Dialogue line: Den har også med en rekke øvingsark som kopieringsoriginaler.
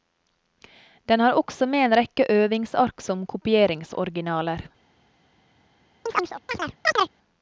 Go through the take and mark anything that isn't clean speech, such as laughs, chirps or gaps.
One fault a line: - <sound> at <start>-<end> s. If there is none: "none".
- chirp at 6.1-7.1 s